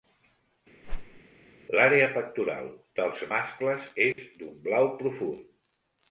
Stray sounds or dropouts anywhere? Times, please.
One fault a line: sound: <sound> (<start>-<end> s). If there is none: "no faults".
sound: whoosh (0.8-1.2 s)
sound: dropout (4.1-4.2 s)